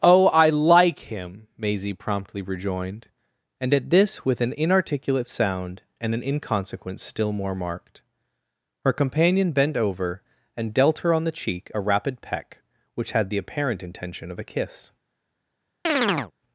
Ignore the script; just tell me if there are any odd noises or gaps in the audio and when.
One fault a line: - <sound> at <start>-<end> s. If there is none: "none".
- chirp at 15.9-16.3 s